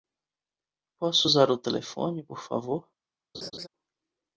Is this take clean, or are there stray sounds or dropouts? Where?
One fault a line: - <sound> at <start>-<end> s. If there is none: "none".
- laugh at 3.3-3.7 s